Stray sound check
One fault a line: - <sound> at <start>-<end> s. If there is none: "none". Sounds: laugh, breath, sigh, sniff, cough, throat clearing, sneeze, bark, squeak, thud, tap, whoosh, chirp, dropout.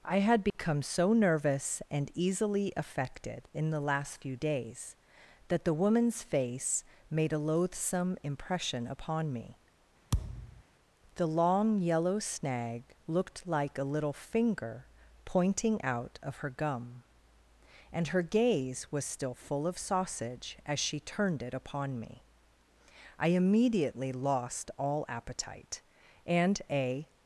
- dropout at 0.5-0.5 s
- thud at 10.1-10.6 s